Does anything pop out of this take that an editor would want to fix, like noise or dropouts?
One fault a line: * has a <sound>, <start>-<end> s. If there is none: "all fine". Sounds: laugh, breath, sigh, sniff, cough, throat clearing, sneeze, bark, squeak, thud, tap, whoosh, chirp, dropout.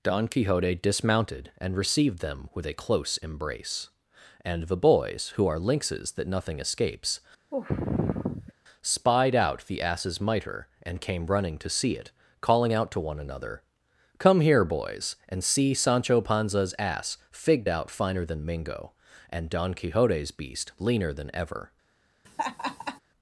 * has a sigh, 7.5-8.5 s
* has a laugh, 22.2-23.0 s